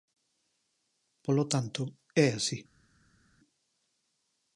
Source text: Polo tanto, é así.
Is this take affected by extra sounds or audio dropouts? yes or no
no